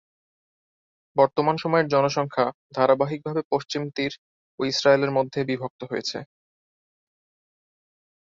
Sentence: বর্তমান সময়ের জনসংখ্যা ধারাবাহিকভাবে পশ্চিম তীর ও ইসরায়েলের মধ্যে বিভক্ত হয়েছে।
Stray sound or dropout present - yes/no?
no